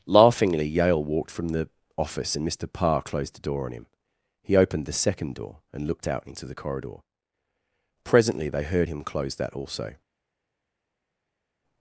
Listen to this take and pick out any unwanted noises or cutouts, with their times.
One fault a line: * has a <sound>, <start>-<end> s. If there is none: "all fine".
all fine